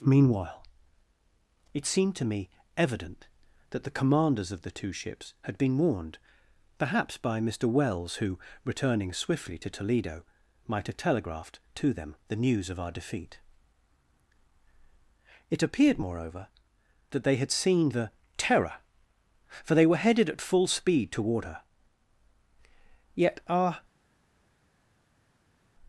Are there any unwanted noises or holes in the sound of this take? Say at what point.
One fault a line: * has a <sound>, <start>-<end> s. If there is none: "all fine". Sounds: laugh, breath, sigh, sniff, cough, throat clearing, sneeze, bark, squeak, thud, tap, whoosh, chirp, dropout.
all fine